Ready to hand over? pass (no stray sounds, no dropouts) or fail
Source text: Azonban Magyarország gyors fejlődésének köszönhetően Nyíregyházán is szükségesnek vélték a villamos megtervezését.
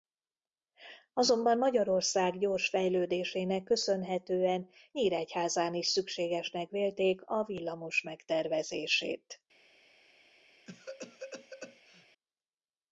fail